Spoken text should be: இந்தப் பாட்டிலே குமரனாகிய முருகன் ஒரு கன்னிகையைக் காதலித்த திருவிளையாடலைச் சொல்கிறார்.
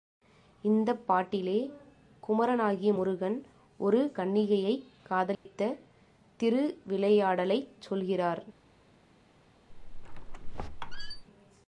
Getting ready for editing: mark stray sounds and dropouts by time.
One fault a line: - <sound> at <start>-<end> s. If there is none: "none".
- dropout at 5.3-5.5 s
- squeak at 9.7-11.2 s